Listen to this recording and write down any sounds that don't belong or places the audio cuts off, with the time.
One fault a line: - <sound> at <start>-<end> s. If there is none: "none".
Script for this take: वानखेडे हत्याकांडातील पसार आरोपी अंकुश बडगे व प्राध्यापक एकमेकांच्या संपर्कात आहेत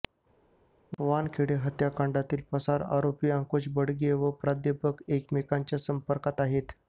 none